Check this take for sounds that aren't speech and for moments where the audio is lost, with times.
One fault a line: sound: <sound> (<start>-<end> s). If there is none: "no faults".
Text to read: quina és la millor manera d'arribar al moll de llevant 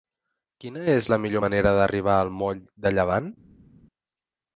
no faults